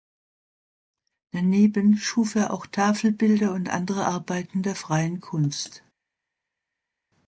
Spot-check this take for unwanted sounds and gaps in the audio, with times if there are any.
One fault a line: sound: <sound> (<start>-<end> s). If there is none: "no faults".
no faults